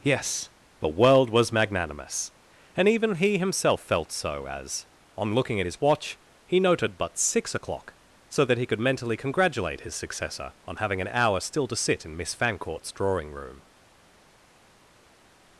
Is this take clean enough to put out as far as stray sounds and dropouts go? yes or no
yes